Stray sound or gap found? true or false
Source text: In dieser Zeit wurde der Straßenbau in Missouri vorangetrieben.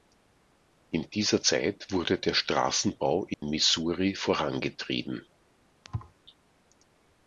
true